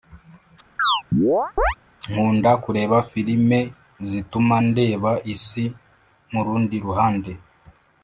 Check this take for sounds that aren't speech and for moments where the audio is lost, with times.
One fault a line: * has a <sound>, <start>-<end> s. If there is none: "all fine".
* has a chirp, 0.8-1.8 s